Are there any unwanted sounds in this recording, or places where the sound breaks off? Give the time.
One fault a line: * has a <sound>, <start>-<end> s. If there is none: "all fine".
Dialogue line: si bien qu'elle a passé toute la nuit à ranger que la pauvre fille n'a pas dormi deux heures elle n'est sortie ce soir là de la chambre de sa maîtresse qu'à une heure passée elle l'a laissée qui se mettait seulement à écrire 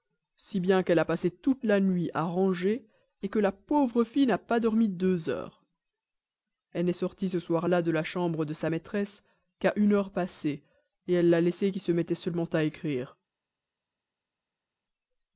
all fine